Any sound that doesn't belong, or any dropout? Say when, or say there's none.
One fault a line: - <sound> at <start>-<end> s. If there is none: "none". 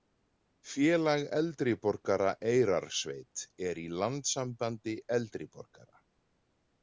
none